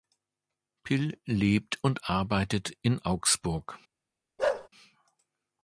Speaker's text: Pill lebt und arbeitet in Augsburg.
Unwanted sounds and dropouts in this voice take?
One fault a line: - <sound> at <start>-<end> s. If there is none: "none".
- bark at 4.4-4.7 s